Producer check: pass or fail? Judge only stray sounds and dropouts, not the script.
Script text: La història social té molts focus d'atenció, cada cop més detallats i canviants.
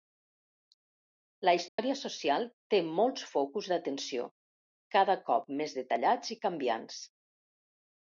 fail